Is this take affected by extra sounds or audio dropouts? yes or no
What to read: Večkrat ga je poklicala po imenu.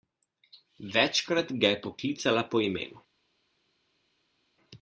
no